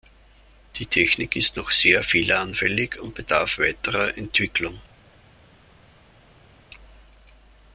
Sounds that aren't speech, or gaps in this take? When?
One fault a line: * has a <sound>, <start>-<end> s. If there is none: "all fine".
all fine